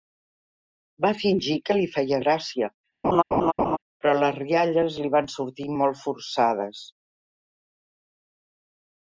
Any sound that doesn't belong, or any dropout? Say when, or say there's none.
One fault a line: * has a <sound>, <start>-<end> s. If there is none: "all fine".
* has a laugh, 3.0-3.8 s